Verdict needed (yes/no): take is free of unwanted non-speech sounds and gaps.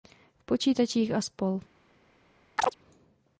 no